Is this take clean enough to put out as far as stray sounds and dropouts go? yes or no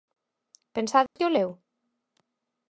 no